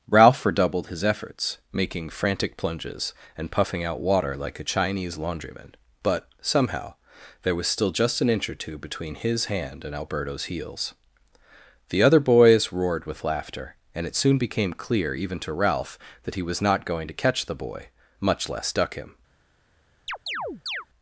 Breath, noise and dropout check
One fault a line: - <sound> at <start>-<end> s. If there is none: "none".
- chirp at 20.1-20.9 s